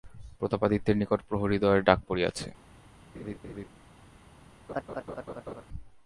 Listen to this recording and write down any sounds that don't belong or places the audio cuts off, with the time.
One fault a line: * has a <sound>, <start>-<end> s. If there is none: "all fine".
* has a laugh, 3.1-3.7 s
* has a laugh, 4.7-5.6 s